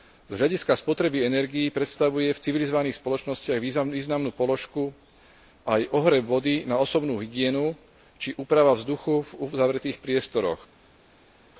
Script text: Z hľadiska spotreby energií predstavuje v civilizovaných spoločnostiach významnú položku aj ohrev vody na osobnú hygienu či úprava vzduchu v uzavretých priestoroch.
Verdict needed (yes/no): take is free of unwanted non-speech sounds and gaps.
yes